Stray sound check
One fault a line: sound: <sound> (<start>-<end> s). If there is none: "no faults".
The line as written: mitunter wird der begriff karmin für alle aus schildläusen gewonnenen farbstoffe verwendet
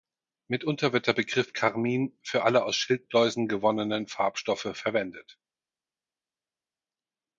no faults